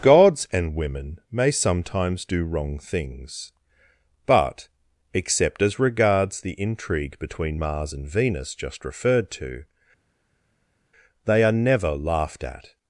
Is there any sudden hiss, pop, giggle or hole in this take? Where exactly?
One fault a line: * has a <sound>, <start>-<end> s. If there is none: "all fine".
all fine